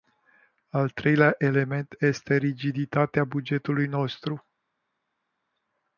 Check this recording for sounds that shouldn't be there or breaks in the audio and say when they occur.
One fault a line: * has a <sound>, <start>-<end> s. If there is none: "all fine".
all fine